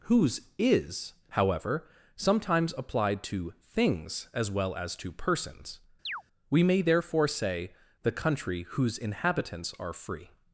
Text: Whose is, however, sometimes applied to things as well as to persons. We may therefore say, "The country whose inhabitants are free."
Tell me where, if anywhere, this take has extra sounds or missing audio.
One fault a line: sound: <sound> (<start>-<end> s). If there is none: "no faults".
sound: chirp (6.1-6.2 s)